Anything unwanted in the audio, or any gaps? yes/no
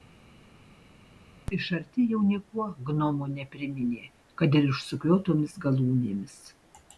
no